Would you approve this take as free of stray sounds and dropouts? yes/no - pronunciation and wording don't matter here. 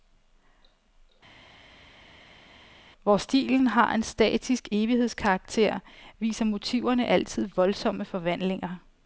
yes